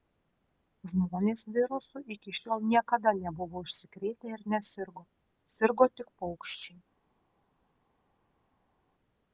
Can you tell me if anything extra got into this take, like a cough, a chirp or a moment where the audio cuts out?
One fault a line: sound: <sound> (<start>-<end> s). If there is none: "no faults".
no faults